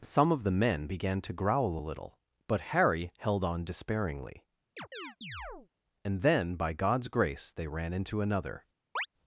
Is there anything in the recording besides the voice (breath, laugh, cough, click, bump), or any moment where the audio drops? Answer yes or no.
yes